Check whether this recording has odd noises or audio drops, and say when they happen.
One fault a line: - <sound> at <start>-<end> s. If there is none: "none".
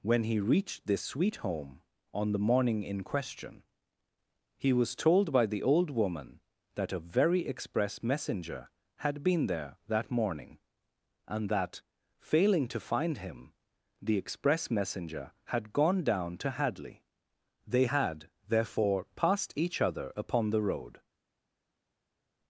none